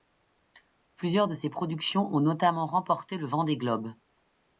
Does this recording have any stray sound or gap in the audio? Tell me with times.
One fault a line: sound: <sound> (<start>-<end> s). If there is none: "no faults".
no faults